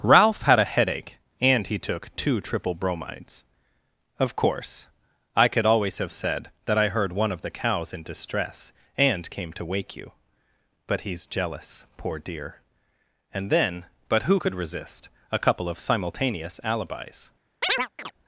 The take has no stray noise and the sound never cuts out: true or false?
false